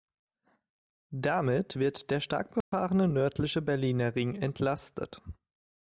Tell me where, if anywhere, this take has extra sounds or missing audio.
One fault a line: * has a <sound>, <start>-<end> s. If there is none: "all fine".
* has a dropout, 2.6-2.7 s